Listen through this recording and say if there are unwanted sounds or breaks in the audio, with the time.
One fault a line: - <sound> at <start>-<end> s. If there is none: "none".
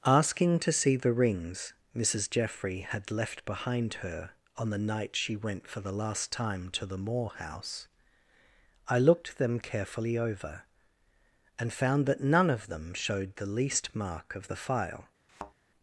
- thud at 15.3-15.5 s